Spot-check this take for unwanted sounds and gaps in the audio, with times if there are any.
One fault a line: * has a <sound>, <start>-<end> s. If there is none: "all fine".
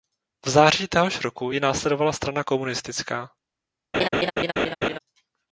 * has a laugh, 3.9-5.0 s